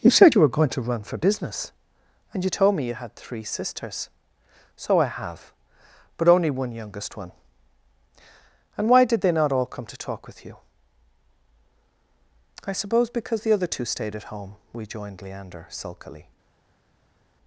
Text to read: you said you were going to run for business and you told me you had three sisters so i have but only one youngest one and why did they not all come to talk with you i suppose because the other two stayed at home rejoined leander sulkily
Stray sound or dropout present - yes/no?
no